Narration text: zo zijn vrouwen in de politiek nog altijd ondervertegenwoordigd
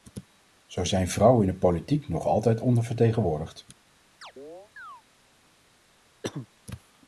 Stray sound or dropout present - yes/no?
yes